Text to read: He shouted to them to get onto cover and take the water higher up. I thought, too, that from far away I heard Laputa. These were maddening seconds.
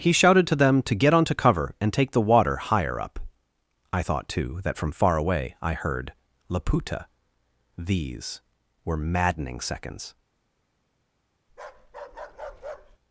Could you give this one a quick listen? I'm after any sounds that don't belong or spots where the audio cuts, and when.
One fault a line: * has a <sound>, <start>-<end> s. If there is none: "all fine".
* has a bark, 11.5-13.0 s